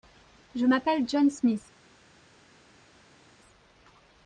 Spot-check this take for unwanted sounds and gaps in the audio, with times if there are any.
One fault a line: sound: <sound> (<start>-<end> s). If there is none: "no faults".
no faults